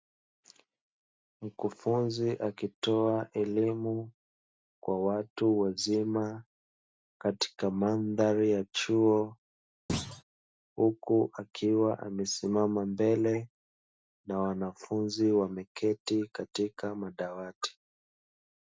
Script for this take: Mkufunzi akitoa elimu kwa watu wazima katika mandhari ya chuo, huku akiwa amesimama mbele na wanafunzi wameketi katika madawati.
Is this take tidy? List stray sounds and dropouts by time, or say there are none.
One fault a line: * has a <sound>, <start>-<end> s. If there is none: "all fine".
* has a thud, 9.9-10.2 s